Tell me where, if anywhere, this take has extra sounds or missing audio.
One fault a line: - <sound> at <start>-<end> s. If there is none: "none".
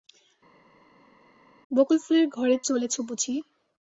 none